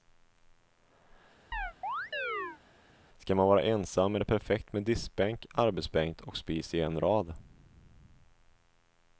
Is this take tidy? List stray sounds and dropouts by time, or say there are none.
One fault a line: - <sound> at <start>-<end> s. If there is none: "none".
- chirp at 1.5-2.6 s